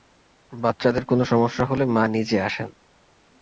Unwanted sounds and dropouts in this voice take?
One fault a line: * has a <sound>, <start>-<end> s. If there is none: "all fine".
all fine